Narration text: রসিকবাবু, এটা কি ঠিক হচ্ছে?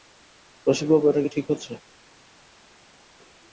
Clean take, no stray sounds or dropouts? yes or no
yes